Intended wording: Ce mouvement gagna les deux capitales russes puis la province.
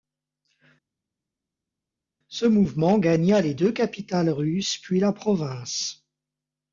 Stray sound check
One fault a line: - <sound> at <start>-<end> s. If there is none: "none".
none